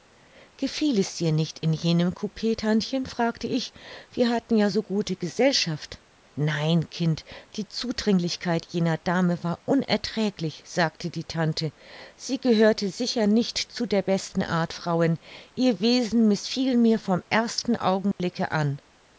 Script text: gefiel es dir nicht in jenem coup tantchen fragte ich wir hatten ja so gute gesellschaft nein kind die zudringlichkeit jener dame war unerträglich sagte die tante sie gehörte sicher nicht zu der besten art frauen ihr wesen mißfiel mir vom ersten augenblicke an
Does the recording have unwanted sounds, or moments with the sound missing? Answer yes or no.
yes